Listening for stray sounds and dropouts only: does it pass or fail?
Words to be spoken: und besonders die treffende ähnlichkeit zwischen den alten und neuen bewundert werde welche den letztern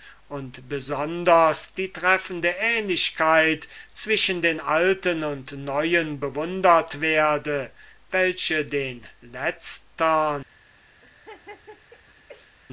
fail